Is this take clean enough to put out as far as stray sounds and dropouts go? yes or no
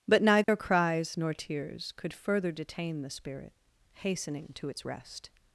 no